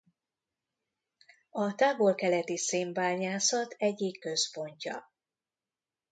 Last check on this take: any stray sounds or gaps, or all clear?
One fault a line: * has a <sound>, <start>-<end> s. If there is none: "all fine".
all fine